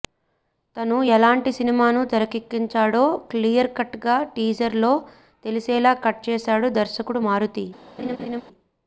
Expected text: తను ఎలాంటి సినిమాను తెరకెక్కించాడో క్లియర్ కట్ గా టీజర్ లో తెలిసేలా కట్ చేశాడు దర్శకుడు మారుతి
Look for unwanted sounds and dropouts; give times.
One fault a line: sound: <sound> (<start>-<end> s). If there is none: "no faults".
sound: laugh (8.0-8.4 s)